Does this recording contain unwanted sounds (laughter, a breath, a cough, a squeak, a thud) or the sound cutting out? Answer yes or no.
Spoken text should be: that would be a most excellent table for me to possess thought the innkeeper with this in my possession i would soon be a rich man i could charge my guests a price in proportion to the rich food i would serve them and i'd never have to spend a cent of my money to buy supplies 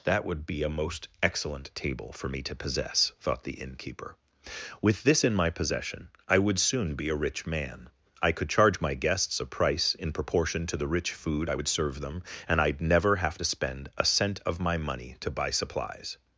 no